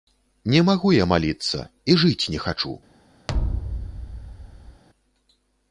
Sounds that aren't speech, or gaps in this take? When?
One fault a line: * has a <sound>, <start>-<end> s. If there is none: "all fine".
* has a thud, 3.3-4.8 s